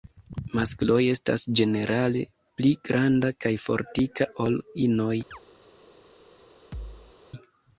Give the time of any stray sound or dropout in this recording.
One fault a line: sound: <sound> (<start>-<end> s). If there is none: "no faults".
sound: chirp (5.3-5.4 s)
sound: thud (6.7-7.2 s)